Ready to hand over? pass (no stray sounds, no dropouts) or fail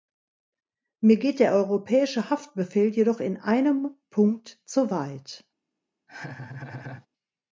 fail